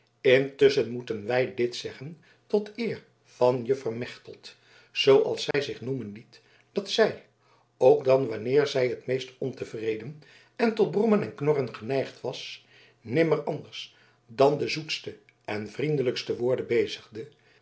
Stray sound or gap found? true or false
true